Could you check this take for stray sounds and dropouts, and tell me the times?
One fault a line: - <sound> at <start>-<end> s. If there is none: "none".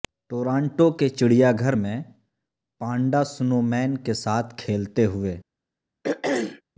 - throat clearing at 6.0-6.6 s